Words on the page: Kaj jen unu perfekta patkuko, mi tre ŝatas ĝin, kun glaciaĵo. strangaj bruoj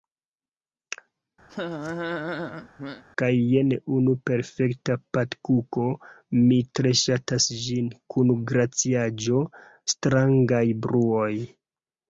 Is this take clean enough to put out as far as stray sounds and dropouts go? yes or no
no